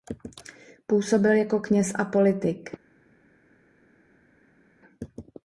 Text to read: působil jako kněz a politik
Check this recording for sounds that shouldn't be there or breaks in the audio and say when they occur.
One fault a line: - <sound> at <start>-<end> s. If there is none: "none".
none